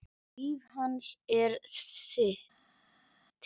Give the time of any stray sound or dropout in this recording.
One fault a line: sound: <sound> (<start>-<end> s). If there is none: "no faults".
no faults